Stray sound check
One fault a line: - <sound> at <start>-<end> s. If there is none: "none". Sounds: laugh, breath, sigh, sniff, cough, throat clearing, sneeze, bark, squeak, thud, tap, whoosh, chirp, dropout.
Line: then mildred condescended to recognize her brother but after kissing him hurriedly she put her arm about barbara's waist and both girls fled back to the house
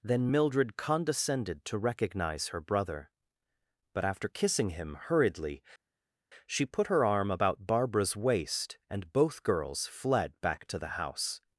none